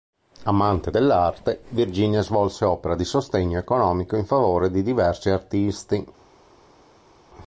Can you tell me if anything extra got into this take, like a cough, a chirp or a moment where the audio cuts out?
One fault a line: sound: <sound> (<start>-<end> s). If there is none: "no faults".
no faults